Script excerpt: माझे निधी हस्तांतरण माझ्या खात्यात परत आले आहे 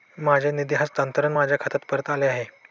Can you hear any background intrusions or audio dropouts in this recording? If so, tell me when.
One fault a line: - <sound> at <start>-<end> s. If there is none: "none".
none